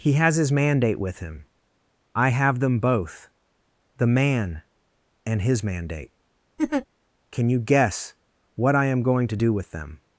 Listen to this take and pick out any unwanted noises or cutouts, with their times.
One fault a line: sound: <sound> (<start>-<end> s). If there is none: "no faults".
sound: laugh (6.6-6.9 s)